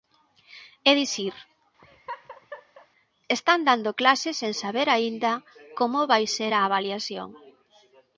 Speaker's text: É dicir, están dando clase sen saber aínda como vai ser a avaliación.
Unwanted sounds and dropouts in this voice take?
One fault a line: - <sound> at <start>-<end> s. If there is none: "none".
- laugh at 1.8-2.9 s